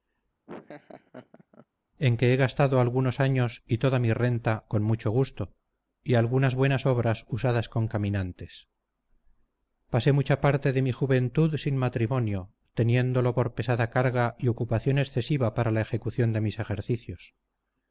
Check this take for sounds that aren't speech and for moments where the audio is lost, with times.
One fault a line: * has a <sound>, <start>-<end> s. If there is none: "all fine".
* has a laugh, 0.5-1.7 s